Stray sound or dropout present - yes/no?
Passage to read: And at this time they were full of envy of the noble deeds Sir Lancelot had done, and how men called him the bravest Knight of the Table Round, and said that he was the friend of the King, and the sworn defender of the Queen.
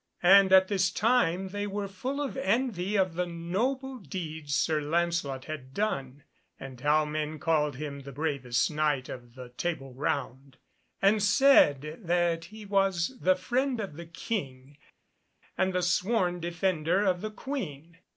no